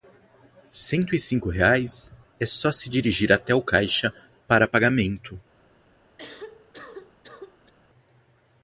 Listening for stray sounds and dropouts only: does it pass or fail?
fail